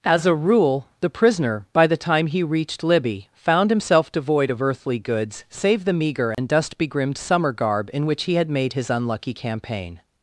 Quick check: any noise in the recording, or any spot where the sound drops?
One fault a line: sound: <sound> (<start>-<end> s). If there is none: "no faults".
sound: dropout (6.3-6.4 s)